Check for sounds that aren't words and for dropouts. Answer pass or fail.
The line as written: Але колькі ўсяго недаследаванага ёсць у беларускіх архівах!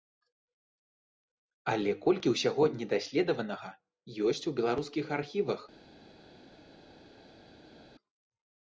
pass